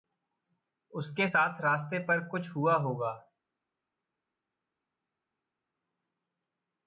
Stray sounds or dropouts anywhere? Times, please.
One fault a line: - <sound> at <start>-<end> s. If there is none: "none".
none